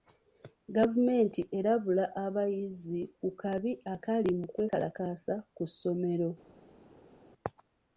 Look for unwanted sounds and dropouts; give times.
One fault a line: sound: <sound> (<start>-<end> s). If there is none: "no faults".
no faults